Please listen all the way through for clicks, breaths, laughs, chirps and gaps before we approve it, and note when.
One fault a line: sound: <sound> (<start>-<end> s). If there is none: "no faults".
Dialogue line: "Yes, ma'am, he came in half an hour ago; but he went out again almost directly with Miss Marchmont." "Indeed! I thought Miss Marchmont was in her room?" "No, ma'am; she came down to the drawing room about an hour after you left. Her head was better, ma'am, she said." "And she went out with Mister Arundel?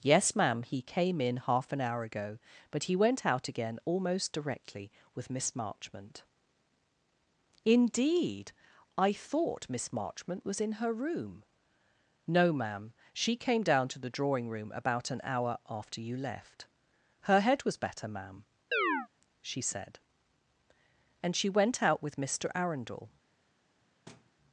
sound: chirp (18.7-19.1 s)
sound: thud (24.1-24.3 s)